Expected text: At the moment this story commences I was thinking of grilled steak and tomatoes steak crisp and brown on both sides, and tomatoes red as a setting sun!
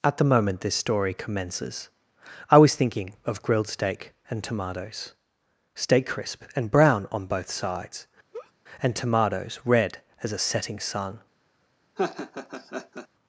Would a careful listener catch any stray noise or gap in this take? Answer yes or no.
yes